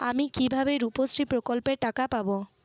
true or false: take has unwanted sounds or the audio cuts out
false